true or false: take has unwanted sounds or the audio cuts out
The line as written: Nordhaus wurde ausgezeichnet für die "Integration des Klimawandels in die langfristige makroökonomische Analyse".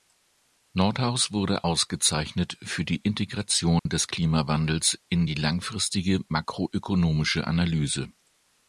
true